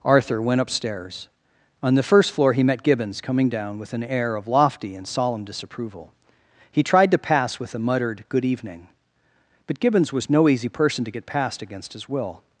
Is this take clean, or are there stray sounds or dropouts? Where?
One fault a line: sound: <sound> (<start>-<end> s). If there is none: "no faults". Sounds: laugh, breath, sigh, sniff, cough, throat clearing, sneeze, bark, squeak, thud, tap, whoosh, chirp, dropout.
no faults